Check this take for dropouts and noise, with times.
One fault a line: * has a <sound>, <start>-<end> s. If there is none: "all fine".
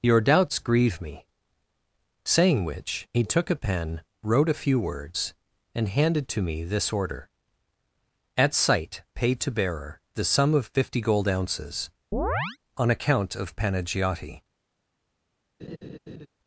* has a chirp, 12.1-12.6 s
* has a laugh, 15.6-16.3 s